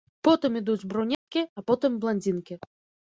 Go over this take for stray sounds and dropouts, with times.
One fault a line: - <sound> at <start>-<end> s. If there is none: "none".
- dropout at 1.1-1.3 s